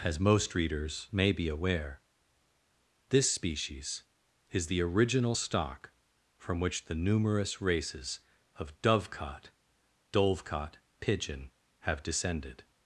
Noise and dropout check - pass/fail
pass